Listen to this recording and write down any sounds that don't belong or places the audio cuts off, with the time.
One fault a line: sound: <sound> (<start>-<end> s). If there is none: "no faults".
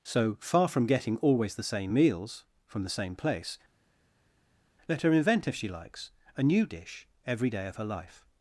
no faults